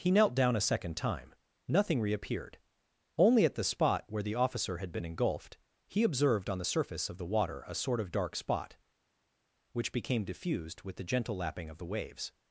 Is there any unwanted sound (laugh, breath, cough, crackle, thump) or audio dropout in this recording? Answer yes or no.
no